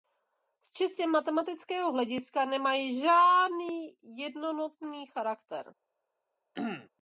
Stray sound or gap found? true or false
true